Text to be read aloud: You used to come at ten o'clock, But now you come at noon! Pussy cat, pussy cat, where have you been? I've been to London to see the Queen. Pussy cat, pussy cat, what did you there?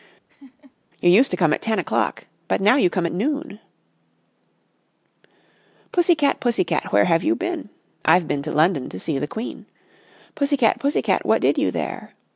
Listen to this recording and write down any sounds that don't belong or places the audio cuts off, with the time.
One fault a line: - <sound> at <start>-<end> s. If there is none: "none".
- laugh at 0.3-0.7 s